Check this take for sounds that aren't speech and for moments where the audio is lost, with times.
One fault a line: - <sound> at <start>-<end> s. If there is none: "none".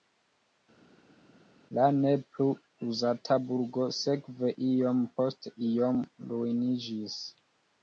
none